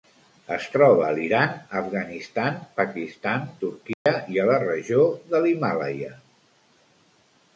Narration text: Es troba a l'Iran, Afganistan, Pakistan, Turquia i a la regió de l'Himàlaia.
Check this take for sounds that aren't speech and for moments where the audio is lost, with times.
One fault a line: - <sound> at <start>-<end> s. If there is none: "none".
- dropout at 3.9-4.1 s